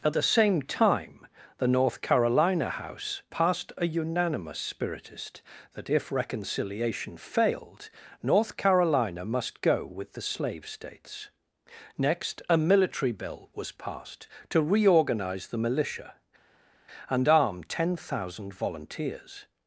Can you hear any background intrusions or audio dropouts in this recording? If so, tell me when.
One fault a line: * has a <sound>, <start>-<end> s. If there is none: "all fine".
all fine